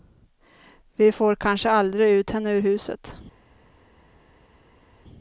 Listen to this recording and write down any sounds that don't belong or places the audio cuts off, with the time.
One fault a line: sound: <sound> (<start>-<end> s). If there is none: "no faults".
no faults